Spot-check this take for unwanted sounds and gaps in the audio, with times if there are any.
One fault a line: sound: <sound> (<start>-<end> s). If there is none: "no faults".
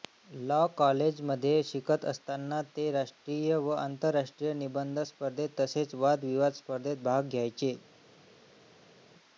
no faults